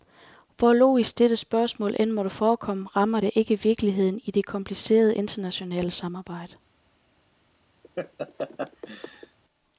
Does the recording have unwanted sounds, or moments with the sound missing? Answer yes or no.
yes